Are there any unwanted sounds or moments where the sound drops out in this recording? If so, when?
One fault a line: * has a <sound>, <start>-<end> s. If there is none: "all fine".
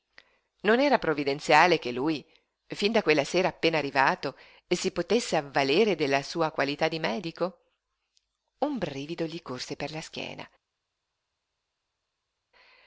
all fine